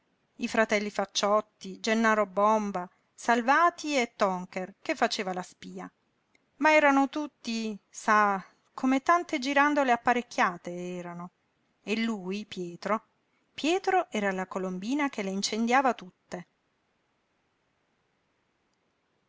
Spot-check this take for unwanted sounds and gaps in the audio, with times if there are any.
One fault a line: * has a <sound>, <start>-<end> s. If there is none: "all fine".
all fine